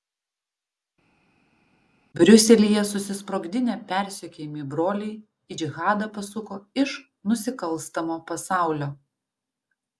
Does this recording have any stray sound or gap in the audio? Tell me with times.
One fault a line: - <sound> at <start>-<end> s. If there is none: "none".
none